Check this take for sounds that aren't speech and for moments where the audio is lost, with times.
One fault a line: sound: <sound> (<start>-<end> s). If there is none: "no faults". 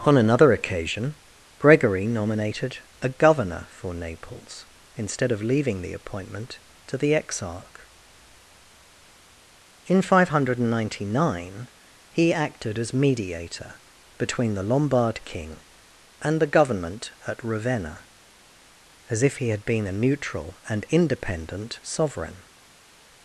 no faults